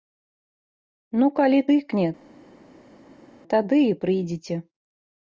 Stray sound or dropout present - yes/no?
no